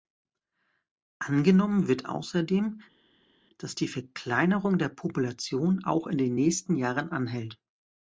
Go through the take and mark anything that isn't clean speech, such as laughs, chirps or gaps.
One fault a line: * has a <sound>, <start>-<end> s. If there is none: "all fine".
all fine